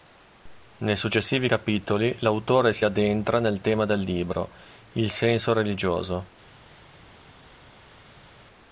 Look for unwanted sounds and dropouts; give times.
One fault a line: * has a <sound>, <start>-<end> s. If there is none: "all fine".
all fine